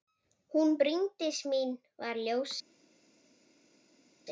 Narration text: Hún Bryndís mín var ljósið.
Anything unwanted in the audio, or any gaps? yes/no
no